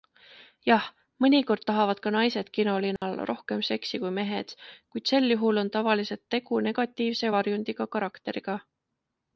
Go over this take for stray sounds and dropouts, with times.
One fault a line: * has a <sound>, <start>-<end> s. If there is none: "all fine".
* has a dropout, 3.0-3.0 s